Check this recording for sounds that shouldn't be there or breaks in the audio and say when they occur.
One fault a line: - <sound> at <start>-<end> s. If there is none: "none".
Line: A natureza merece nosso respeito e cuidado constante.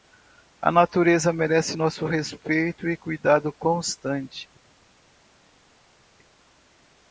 none